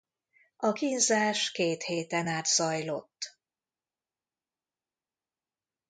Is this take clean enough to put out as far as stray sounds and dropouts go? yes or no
yes